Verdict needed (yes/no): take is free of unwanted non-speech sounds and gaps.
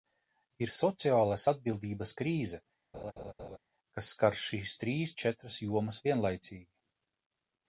no